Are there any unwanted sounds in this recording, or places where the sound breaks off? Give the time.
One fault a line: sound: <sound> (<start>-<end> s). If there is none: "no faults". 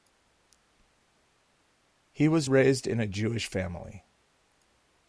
no faults